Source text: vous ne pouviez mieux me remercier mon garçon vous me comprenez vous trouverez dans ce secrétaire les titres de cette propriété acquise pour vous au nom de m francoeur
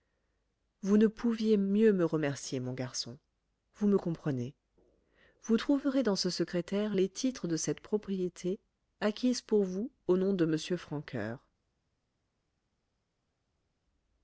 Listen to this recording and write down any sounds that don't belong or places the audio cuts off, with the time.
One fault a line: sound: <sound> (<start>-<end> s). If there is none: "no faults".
no faults